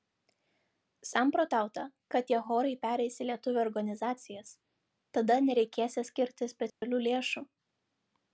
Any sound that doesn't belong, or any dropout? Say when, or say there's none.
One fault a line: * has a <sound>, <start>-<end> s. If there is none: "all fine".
* has a dropout, 6.7-6.8 s